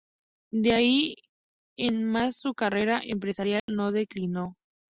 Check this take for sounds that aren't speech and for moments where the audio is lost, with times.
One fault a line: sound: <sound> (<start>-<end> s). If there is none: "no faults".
sound: dropout (3.6-3.7 s)